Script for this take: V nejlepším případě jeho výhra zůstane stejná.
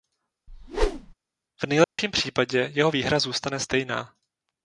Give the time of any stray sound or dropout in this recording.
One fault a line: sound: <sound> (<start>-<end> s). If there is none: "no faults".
sound: whoosh (0.5-1.1 s)
sound: dropout (1.8-2.0 s)